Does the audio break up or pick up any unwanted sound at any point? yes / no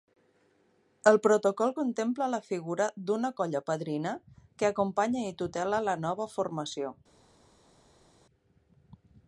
no